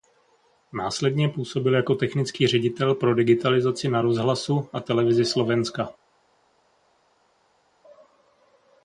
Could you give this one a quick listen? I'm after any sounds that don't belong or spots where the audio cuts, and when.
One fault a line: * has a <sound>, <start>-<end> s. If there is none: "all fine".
all fine